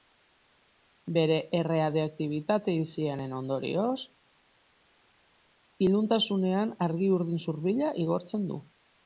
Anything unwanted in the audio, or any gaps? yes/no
no